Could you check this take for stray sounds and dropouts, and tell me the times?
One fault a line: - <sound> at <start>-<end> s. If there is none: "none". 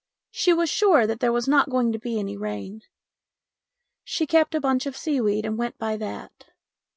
none